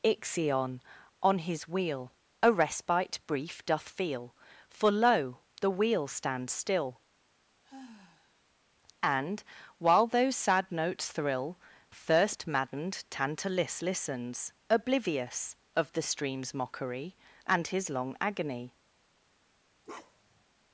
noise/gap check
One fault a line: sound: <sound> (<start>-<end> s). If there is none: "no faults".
sound: sigh (7.6-8.4 s)
sound: bark (19.8-20.4 s)